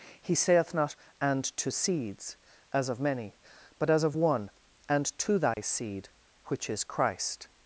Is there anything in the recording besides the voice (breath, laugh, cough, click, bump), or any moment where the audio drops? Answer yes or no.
yes